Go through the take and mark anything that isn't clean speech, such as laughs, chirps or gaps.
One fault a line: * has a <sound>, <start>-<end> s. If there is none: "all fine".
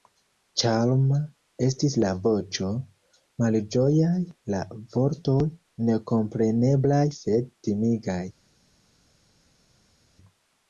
all fine